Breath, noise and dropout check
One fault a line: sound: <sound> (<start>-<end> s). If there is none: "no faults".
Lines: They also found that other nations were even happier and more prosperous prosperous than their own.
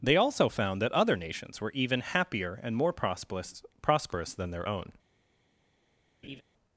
sound: laugh (6.2-6.4 s)